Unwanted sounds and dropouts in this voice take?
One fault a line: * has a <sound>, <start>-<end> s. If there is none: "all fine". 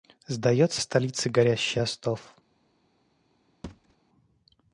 * has a thud, 3.6-4.0 s